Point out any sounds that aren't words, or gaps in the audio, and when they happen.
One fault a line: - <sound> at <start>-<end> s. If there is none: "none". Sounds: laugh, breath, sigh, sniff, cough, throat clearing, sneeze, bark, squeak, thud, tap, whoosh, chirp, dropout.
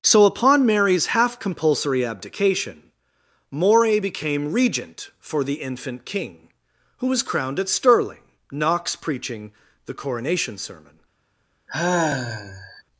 - sigh at 11.7-12.8 s